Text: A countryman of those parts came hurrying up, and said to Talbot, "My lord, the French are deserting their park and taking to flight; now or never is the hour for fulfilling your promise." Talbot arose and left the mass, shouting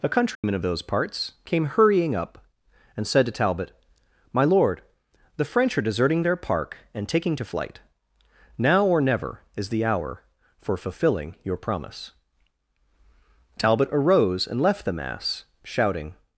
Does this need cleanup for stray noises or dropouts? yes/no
yes